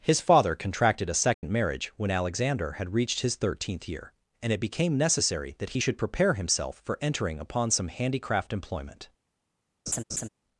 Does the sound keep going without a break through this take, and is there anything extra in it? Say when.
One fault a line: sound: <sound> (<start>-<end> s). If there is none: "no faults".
sound: dropout (1.3-1.4 s)
sound: laugh (9.9-10.3 s)